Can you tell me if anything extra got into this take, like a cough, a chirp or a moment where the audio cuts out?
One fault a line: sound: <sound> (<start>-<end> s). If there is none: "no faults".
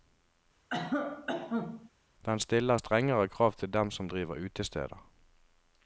sound: cough (0.7-1.9 s)